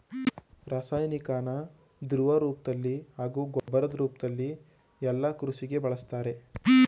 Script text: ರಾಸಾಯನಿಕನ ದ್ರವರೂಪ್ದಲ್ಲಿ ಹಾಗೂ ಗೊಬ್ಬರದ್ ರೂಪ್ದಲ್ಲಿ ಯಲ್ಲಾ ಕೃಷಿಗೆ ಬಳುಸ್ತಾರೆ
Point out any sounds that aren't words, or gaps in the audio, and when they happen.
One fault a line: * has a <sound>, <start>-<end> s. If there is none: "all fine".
* has a dropout, 3.6-3.7 s